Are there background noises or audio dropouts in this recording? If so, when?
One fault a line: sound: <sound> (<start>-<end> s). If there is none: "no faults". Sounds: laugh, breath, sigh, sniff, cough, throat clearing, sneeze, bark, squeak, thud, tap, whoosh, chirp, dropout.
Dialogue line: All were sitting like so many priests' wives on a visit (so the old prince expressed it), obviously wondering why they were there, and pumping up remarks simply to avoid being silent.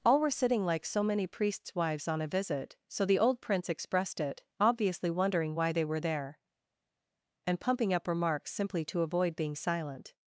no faults